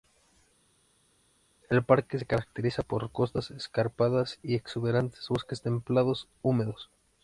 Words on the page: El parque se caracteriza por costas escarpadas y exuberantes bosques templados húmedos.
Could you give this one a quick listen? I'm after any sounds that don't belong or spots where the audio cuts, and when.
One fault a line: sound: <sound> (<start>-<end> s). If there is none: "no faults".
no faults